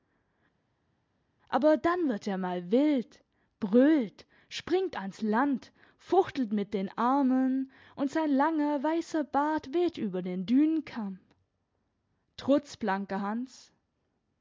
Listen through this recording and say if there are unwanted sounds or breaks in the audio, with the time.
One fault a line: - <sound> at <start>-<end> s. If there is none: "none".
none